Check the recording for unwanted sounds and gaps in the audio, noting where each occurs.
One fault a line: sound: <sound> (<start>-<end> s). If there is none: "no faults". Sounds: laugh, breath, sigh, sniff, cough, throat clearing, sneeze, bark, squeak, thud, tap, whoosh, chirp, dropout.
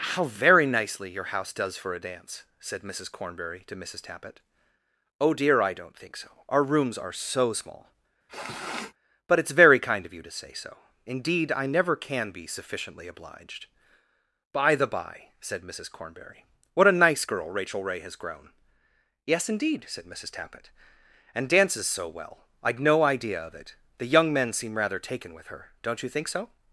sound: sniff (8.3-8.9 s)